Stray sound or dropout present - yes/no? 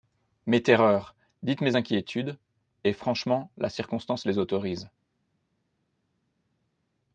no